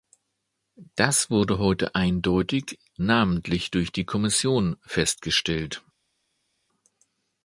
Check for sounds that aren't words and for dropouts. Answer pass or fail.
pass